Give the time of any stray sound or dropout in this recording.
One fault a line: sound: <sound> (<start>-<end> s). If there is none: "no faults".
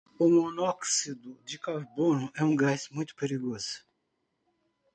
no faults